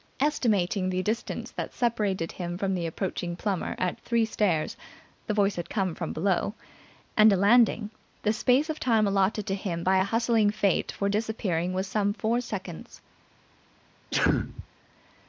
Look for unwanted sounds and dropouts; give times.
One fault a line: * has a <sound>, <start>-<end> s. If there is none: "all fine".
* has a sneeze, 14.1-14.7 s